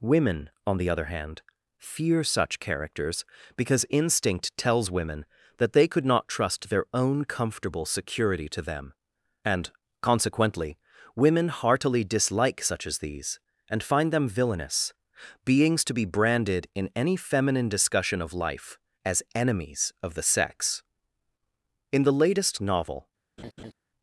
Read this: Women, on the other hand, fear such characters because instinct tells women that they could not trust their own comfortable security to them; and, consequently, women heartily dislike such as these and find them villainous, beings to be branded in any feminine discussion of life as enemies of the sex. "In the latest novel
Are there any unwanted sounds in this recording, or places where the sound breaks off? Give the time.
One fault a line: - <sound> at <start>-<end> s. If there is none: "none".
- laugh at 23.4-23.7 s